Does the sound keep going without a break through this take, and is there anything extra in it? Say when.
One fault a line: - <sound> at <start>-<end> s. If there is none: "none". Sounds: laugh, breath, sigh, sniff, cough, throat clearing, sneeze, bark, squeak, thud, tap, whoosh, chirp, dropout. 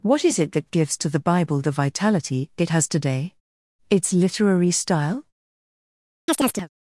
- chirp at 6.3-6.7 s